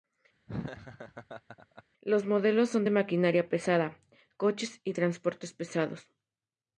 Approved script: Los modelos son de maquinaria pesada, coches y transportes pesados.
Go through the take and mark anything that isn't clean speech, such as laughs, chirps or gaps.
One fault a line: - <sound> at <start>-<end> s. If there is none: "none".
- laugh at 0.5-1.8 s